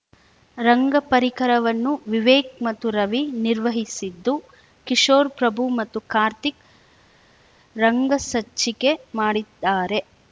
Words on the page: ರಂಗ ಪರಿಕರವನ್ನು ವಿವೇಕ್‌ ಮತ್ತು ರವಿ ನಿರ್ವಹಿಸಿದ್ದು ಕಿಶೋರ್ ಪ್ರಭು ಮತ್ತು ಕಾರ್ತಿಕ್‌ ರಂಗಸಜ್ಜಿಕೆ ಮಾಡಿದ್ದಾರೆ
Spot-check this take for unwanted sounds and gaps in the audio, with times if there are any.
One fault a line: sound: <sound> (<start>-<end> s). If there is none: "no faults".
no faults